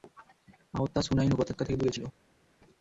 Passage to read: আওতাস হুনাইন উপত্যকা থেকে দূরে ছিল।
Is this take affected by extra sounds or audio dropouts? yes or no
no